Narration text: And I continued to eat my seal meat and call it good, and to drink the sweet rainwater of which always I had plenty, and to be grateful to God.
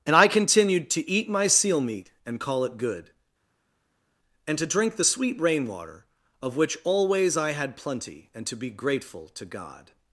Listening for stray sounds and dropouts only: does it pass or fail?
pass